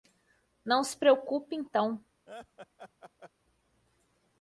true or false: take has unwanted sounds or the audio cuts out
true